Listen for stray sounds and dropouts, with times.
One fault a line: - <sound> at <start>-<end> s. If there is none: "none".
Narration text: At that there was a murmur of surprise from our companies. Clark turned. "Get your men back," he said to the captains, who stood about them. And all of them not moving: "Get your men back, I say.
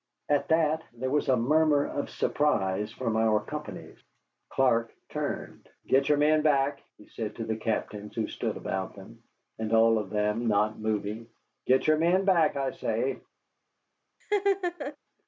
- laugh at 14.2-15.0 s